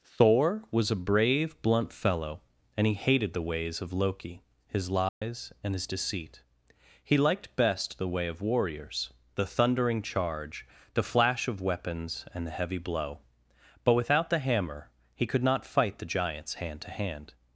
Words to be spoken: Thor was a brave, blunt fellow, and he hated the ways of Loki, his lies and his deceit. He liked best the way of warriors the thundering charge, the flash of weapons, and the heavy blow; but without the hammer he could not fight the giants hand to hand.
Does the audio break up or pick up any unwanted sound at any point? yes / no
yes